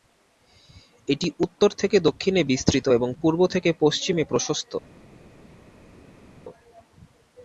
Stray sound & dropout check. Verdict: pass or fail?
pass